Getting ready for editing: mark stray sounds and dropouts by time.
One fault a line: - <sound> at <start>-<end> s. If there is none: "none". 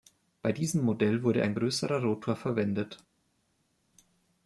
none